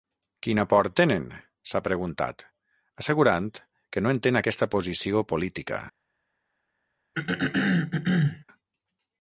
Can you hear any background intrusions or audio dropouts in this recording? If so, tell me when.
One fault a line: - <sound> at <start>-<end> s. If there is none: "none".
- throat clearing at 7.1-8.4 s